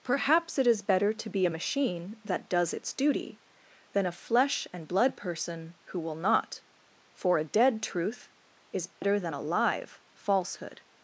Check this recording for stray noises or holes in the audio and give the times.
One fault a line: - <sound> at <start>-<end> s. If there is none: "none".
- dropout at 8.9-9.0 s